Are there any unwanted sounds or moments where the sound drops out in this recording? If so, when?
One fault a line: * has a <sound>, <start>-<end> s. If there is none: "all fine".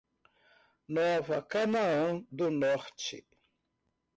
all fine